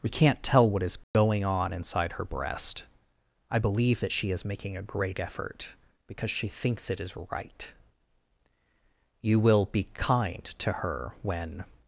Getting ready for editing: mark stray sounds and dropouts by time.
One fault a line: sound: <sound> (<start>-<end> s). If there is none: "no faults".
sound: dropout (1.0-1.1 s)